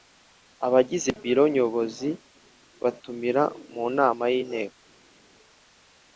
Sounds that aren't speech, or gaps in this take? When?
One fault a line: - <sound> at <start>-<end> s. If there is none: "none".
none